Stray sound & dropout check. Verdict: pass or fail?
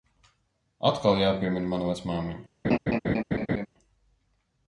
fail